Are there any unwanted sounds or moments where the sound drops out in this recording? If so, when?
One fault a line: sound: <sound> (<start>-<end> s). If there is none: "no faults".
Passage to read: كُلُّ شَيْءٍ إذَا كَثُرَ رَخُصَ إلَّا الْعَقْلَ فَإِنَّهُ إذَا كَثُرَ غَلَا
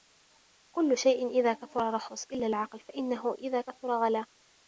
no faults